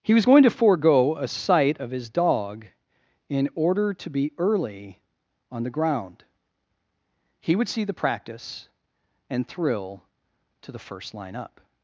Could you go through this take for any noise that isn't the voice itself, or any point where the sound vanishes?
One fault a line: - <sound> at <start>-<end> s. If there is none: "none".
none